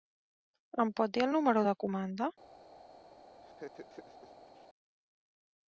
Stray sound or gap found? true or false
true